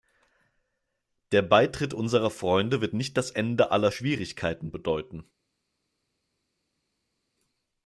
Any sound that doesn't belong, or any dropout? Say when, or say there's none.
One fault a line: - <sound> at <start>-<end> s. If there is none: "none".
none